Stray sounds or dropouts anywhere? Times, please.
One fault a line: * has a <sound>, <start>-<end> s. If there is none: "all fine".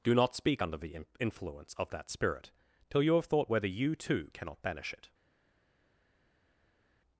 all fine